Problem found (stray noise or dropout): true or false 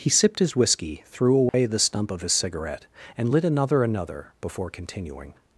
true